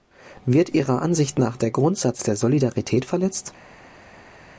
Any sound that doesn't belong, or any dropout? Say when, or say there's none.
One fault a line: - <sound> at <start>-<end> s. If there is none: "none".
none